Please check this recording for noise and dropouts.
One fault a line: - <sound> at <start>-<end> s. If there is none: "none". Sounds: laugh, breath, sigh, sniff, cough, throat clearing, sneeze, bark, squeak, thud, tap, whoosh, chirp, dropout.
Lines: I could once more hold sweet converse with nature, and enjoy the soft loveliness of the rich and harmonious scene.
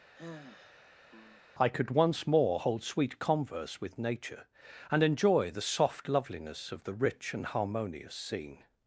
- sigh at 0.1-1.4 s